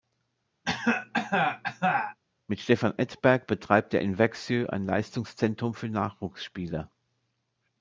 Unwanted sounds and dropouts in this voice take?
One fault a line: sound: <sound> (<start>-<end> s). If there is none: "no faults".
sound: cough (0.6-2.2 s)